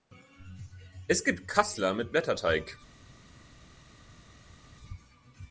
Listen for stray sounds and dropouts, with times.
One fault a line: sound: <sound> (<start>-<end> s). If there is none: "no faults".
no faults